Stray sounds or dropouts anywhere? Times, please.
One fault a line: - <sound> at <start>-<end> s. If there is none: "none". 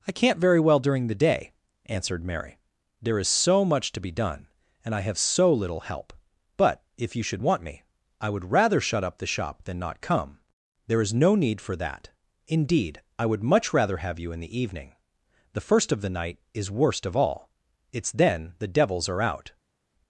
none